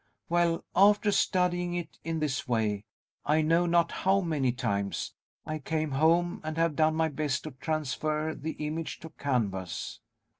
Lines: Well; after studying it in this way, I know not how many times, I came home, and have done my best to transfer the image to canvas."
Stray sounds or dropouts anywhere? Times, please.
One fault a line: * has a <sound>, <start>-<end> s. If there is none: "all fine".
all fine